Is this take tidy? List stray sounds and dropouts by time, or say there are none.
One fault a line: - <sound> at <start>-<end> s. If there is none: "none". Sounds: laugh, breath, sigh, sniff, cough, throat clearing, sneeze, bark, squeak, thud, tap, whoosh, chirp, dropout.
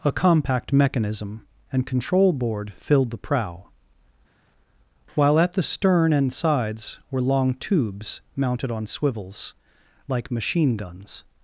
none